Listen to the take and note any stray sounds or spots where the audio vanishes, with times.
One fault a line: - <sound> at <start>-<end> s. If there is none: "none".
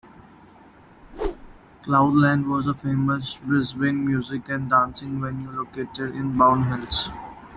- whoosh at 1.0-1.6 s